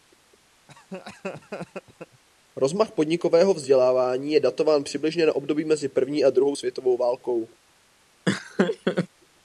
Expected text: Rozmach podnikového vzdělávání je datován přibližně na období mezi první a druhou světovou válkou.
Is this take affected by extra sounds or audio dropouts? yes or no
yes